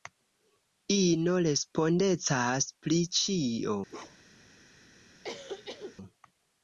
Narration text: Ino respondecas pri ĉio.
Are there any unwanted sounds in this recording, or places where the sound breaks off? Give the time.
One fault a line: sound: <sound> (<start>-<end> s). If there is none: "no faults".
sound: bark (3.9-4.5 s)
sound: cough (5.2-6.0 s)